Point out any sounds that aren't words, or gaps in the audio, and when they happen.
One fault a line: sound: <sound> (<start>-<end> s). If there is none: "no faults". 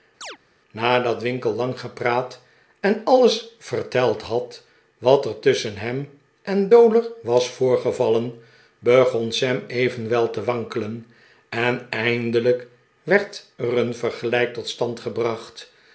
sound: chirp (0.2-0.4 s)